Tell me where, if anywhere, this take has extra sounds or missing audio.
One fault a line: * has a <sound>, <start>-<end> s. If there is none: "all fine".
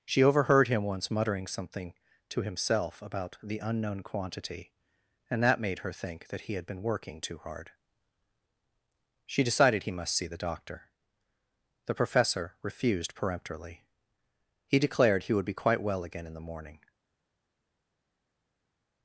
all fine